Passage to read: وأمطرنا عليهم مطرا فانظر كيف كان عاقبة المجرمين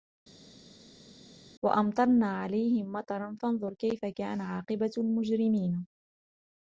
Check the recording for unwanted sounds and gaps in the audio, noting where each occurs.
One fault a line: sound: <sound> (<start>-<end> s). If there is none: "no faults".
no faults